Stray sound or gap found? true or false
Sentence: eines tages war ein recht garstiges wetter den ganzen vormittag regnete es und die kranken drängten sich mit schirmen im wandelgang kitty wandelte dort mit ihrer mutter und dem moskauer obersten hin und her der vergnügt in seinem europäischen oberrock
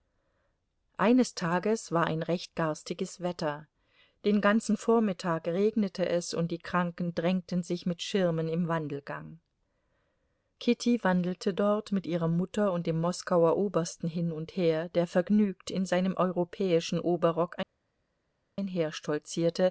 false